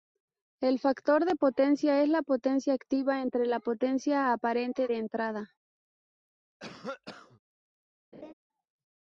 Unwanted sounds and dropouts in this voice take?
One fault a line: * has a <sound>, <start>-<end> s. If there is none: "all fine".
* has a cough, 6.6-7.4 s
* has a laugh, 8.1-8.3 s